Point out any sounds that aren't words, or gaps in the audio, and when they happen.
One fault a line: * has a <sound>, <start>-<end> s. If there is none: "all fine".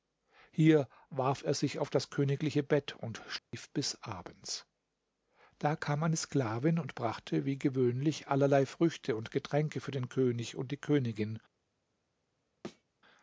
* has a dropout, 3.4-3.5 s
* has a thud, 12.6-12.8 s